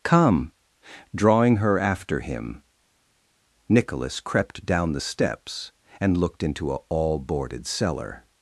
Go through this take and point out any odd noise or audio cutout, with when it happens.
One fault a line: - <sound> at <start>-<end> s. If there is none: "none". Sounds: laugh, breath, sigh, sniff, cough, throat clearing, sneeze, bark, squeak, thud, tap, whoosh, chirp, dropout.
none